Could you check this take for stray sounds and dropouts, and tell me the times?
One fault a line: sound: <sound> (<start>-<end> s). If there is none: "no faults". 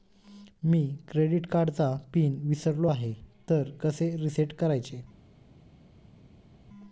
no faults